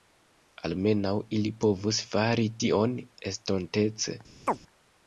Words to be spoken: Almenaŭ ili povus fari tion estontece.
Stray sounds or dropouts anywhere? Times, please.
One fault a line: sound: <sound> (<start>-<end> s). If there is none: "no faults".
sound: chirp (4.5-4.6 s)